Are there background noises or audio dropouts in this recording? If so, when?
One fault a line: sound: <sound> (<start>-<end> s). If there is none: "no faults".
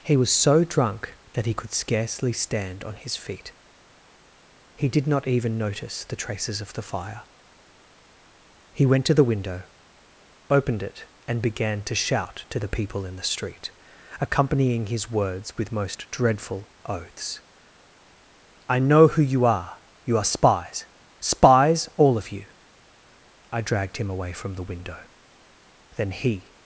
no faults